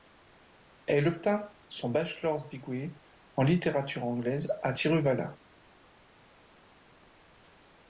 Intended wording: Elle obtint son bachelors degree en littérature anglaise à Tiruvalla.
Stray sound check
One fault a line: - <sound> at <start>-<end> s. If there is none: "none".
none